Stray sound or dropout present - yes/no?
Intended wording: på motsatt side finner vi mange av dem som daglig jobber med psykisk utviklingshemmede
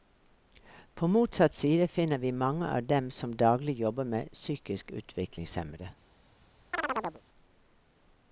yes